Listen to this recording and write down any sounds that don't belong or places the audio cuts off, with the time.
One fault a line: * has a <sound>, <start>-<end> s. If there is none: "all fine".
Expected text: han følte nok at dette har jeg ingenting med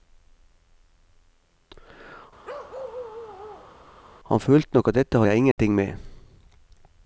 * has a bark, 2.4-3.8 s
* has a dropout, 5.5-5.6 s